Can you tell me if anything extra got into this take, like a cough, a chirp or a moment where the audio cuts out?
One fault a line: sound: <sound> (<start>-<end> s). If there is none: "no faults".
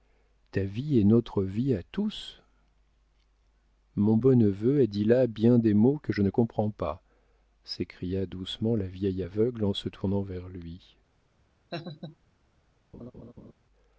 sound: laugh (11.7-12.2 s)
sound: laugh (12.9-13.5 s)